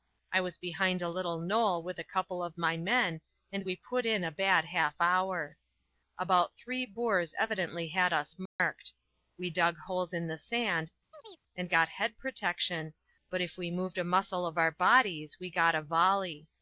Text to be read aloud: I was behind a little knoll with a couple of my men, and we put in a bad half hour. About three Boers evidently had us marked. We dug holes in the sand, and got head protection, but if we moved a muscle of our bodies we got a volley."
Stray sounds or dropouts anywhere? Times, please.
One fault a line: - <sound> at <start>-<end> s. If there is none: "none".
- dropout at 8.5-8.6 s
- chirp at 11.1-11.4 s